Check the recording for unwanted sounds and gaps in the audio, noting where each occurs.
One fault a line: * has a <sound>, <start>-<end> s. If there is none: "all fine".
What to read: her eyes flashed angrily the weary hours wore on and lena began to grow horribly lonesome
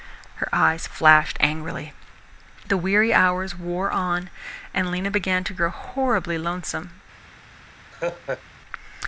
* has a laugh, 7.9-8.4 s